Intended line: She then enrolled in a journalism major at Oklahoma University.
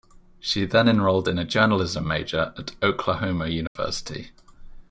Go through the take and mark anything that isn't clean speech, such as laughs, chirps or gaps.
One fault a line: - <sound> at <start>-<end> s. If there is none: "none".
- dropout at 3.7-3.8 s